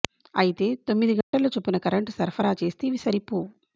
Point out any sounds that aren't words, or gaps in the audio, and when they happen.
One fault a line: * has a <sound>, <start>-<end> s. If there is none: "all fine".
* has a dropout, 1.2-1.3 s